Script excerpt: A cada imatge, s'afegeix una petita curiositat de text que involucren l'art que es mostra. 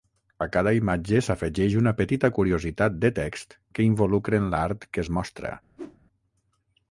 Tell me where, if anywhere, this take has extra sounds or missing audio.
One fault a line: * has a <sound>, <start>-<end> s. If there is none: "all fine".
* has a whoosh, 5.8-6.0 s